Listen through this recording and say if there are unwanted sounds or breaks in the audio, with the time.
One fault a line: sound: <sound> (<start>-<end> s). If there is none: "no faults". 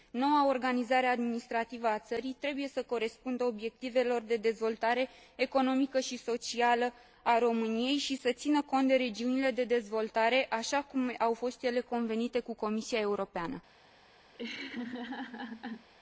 sound: laugh (14.3-15.9 s)